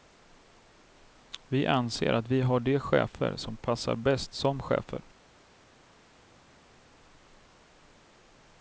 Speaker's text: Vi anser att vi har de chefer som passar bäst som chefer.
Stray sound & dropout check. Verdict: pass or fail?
pass